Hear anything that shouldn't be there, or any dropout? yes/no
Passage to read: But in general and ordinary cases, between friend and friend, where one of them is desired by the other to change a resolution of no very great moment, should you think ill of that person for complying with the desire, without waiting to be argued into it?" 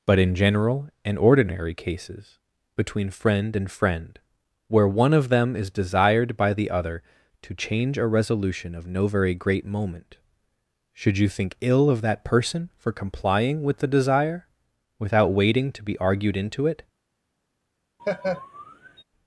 yes